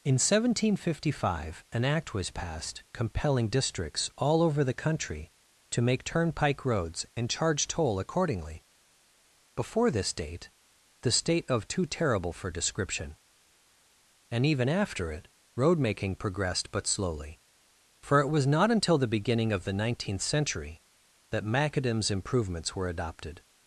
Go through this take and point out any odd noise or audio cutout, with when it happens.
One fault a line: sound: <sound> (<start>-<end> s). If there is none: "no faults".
no faults